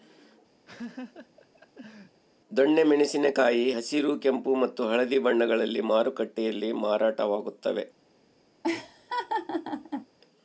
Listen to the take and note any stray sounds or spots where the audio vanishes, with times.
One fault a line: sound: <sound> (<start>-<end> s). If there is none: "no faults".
sound: laugh (0.7-2.2 s)
sound: laugh (8.6-10.1 s)